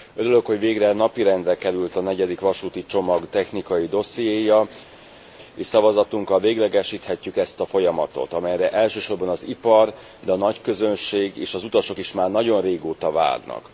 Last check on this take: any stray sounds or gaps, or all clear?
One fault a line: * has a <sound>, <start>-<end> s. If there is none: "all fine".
all fine